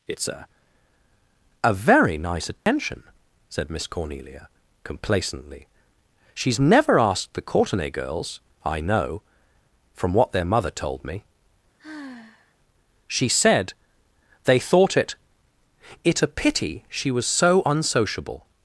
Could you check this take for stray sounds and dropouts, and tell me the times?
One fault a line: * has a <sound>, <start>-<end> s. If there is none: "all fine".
* has a dropout, 2.6-2.7 s
* has a sigh, 11.8-12.5 s